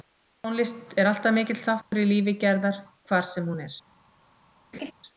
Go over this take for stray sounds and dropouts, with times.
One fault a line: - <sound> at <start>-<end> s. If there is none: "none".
- dropout at 1.8-1.9 s
- laugh at 4.7-4.9 s